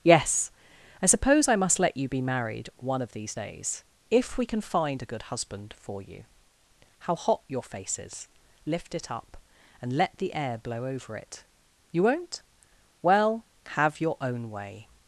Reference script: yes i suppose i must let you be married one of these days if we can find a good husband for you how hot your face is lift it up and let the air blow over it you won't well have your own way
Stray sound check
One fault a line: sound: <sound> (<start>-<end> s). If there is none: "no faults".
no faults